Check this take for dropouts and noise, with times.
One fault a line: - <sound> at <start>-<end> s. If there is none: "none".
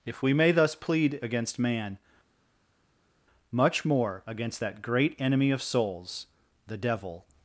none